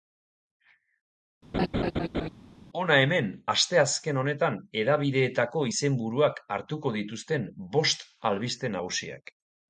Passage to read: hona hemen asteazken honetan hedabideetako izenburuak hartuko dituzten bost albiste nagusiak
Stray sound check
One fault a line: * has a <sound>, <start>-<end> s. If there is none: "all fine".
* has a laugh, 1.5-2.3 s